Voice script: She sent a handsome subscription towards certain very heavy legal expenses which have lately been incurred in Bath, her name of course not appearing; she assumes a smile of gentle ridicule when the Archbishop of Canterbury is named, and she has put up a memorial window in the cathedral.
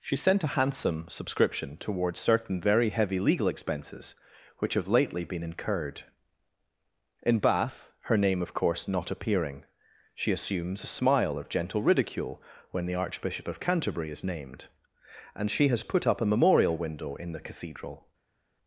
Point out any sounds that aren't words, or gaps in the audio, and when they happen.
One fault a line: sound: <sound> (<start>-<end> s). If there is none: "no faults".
no faults